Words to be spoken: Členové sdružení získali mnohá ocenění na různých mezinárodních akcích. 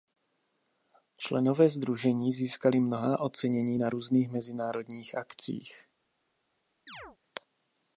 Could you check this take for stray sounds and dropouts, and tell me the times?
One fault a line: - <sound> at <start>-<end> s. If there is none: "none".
- chirp at 6.9-7.2 s